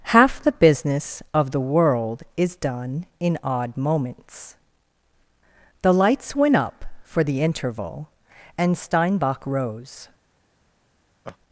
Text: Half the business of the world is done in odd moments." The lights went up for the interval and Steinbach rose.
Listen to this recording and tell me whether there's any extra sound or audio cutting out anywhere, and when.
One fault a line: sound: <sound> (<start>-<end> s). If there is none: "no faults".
sound: laugh (11.2-11.4 s)